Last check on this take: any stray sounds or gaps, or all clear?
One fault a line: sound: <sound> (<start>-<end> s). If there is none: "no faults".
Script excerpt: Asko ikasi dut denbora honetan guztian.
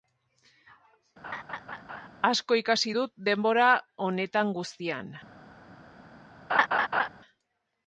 sound: laugh (1.2-2.1 s)
sound: laugh (6.5-7.1 s)